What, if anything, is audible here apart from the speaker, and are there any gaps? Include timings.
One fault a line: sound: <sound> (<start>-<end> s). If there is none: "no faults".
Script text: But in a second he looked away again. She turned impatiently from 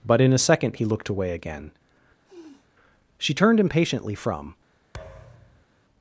sound: sniff (2.3-2.7 s)
sound: thud (4.9-5.7 s)